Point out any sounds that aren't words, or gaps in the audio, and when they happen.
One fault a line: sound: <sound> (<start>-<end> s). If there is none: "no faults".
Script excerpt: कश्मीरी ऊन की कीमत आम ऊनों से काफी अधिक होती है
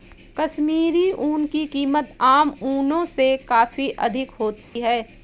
sound: dropout (4.6-4.8 s)